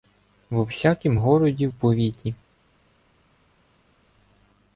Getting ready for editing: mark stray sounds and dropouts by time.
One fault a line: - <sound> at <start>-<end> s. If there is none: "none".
none